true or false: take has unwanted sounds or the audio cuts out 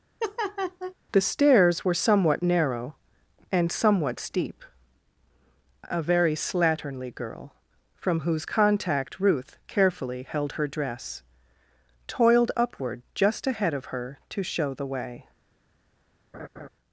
true